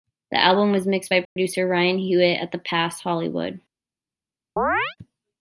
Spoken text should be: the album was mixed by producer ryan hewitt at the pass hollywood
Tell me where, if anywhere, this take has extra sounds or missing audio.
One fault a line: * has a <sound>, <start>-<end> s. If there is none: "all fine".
* has a dropout, 1.2-1.4 s
* has a chirp, 4.6-5.0 s